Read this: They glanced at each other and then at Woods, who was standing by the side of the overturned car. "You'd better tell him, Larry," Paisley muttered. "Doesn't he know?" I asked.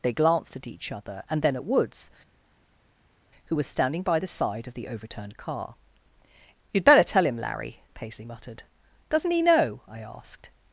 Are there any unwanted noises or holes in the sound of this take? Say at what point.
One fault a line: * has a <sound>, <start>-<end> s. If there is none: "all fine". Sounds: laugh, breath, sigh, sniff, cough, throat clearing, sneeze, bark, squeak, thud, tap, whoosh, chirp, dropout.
all fine